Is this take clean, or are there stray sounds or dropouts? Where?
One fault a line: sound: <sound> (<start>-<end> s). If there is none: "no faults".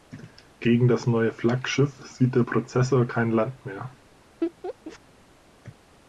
sound: laugh (4.4-5.0 s)